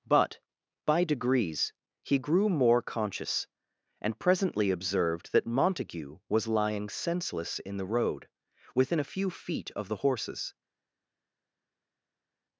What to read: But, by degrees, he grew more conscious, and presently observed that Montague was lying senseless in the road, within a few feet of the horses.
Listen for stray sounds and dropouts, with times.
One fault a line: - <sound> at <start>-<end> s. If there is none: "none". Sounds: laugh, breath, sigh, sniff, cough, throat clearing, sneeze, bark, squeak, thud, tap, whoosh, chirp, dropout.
none